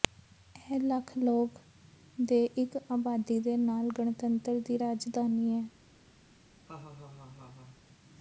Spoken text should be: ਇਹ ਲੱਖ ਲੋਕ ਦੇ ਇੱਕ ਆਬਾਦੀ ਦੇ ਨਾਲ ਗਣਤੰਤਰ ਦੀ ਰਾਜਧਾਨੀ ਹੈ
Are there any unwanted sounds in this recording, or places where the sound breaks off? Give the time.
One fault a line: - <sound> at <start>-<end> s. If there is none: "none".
- laugh at 6.7-7.8 s